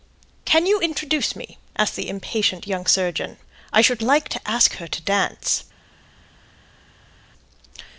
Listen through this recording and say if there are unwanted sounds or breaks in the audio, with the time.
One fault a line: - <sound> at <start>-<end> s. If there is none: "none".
none